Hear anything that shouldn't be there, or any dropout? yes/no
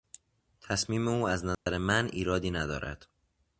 yes